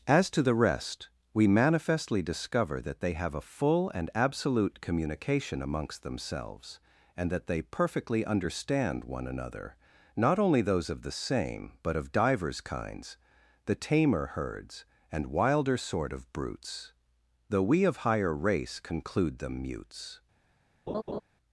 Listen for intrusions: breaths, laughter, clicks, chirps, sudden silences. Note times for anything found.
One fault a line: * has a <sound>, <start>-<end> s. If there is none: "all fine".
* has a laugh, 20.9-21.2 s